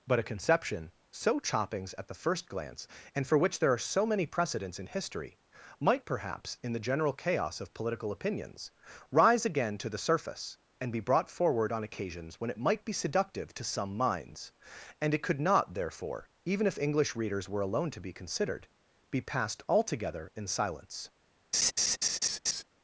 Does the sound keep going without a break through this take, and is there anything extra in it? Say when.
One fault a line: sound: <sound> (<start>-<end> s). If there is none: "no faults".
sound: laugh (21.5-22.6 s)